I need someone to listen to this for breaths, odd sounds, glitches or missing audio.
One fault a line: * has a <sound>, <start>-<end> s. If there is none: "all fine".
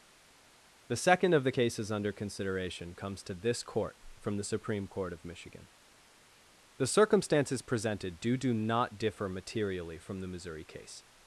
all fine